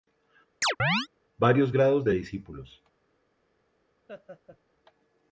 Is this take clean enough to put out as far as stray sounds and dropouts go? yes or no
no